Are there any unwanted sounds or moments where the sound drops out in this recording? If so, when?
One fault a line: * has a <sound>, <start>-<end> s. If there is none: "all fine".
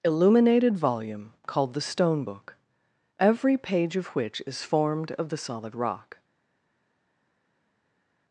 all fine